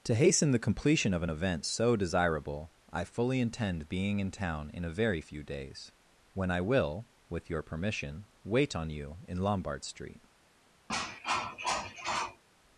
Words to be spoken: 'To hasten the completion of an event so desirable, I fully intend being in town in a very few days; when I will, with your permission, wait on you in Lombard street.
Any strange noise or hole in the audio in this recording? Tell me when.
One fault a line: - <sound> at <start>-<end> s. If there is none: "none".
- cough at 10.9-12.4 s